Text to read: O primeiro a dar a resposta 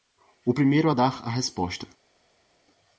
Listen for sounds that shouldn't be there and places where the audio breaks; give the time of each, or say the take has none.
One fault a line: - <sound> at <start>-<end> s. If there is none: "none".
none